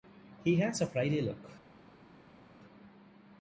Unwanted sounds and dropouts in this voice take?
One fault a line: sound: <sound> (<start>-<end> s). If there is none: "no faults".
no faults